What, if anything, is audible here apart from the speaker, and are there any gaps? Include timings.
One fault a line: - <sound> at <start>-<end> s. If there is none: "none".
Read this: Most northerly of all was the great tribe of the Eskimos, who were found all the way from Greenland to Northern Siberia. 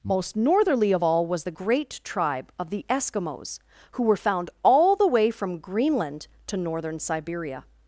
none